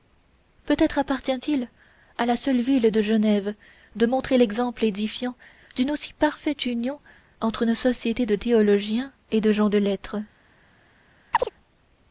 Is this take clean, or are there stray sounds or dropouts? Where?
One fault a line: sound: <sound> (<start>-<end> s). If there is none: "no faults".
sound: chirp (11.3-11.5 s)